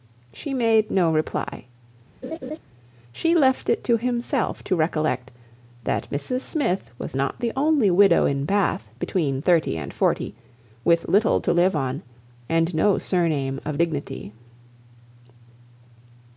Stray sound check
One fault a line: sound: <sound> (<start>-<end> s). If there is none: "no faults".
sound: laugh (2.2-2.6 s)